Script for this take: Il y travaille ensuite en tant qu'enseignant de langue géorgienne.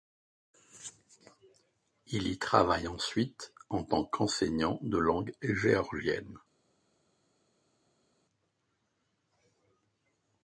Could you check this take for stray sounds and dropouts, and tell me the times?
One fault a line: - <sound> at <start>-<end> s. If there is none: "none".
none